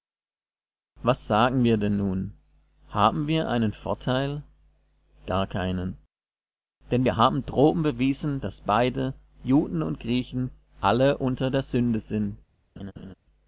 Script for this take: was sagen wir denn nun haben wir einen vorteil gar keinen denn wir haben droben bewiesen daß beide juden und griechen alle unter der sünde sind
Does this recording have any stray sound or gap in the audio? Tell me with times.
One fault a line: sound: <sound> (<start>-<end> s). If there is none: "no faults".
sound: laugh (12.8-13.1 s)